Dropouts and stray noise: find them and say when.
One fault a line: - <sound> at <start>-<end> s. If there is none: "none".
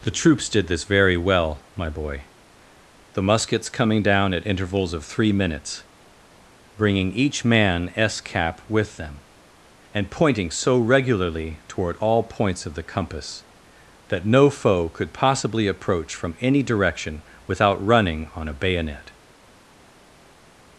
none